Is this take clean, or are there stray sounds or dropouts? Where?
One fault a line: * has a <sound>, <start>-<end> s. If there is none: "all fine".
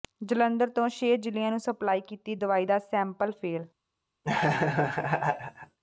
* has a laugh, 4.2-5.8 s